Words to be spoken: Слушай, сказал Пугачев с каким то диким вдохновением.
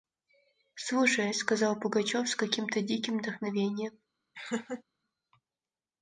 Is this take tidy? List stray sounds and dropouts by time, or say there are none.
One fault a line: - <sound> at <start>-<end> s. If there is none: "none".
- laugh at 4.3-4.8 s